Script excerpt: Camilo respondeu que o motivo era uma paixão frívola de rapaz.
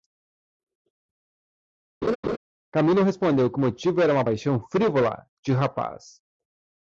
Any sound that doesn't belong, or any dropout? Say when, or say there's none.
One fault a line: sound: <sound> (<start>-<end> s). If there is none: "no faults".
sound: laugh (2.0-2.4 s)